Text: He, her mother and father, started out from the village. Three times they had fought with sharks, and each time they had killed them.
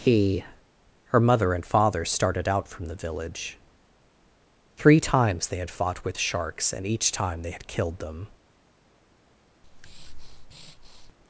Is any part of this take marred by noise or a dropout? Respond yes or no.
yes